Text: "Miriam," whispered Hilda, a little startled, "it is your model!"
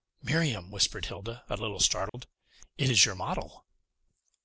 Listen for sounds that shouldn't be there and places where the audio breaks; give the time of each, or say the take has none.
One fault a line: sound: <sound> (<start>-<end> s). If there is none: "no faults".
sound: dropout (2.1-2.1 s)